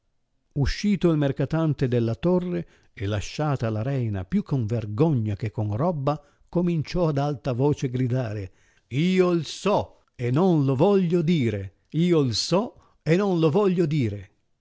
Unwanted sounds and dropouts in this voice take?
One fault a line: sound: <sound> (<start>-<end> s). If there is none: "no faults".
no faults